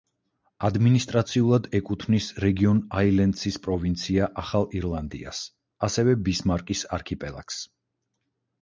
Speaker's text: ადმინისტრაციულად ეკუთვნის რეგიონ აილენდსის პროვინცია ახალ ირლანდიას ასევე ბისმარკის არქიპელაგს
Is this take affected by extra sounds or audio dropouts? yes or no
no